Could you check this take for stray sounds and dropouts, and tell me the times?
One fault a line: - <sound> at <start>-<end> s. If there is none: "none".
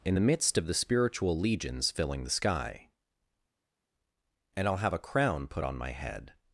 none